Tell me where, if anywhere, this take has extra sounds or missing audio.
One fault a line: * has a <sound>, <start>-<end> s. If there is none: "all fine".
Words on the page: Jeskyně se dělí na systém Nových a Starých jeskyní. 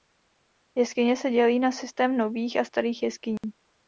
* has a dropout, 3.4-3.4 s